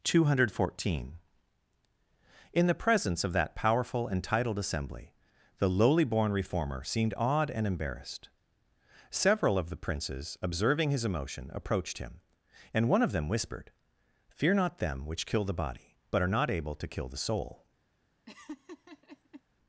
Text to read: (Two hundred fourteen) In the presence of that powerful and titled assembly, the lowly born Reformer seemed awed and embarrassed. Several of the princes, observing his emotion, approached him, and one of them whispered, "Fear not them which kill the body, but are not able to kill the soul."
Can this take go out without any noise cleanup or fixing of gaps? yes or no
no